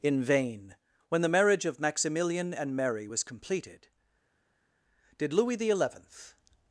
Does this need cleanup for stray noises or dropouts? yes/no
no